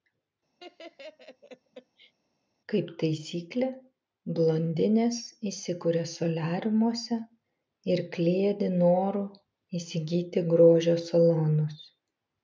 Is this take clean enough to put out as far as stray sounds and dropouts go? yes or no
no